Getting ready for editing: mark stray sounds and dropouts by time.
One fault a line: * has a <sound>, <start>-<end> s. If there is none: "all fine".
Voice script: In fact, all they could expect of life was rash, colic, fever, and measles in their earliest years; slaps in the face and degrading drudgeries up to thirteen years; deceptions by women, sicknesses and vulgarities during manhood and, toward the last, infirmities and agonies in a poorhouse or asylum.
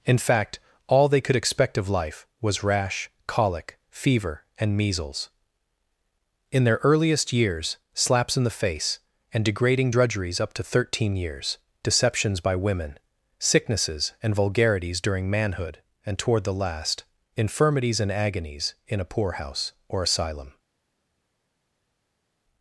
all fine